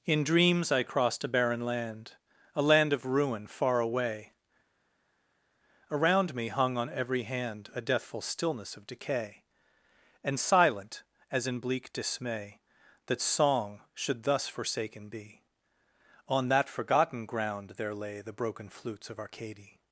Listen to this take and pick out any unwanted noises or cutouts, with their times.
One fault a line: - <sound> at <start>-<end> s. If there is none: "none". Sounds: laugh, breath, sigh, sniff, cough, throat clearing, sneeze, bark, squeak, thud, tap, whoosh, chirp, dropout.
none